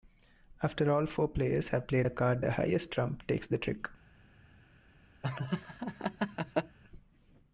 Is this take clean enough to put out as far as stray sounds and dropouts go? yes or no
no